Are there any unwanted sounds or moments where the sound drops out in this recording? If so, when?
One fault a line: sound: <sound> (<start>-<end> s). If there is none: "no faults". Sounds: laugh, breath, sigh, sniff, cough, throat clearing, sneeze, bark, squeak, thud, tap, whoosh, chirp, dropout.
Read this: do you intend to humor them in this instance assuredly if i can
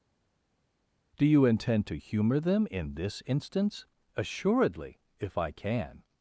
no faults